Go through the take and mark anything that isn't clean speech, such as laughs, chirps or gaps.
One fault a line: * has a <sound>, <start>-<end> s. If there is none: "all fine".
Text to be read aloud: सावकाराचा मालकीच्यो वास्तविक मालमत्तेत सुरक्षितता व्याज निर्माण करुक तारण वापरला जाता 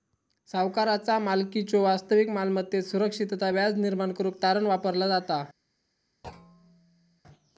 * has a thud, 6.2-7.2 s